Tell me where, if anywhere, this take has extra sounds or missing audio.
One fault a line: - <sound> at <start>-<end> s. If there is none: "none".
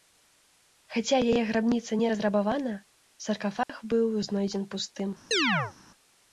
- dropout at 3.6-3.7 s
- chirp at 5.3-5.7 s